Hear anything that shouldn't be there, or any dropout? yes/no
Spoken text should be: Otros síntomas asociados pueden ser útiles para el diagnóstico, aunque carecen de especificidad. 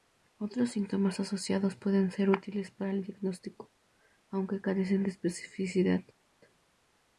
no